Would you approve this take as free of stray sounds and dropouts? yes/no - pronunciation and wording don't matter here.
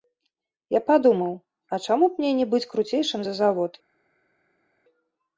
yes